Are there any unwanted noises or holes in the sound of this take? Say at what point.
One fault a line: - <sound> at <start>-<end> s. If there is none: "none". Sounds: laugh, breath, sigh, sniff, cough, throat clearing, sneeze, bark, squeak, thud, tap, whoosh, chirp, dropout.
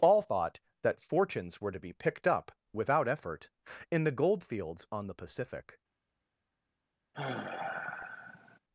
- sigh at 7.1-8.6 s